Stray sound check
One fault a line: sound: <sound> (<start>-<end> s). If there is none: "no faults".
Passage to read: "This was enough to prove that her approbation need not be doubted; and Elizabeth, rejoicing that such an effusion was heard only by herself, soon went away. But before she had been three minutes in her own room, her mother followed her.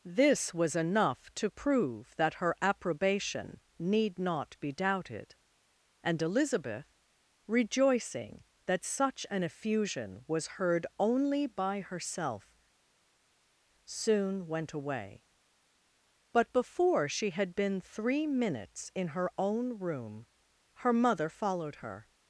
no faults